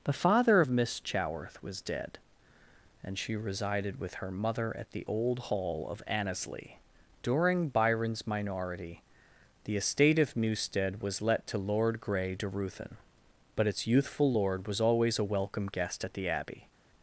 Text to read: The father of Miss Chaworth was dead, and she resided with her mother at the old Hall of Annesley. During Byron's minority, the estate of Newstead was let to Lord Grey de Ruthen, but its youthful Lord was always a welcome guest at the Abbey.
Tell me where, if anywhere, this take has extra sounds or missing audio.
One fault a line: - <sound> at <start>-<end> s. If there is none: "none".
none